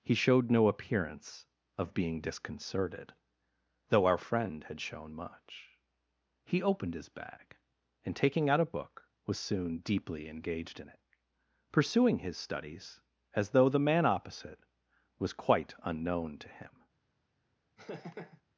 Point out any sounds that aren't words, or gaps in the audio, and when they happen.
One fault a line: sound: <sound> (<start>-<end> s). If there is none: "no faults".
sound: laugh (17.8-18.4 s)